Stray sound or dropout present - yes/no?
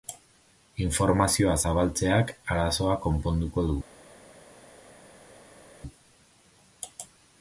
no